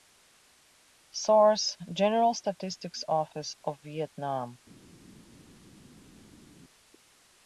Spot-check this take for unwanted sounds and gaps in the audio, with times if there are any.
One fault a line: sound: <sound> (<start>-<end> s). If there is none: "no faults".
no faults